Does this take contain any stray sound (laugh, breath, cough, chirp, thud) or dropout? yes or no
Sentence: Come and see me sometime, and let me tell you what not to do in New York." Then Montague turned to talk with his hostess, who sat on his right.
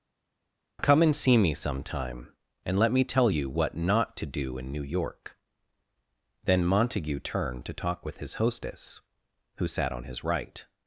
no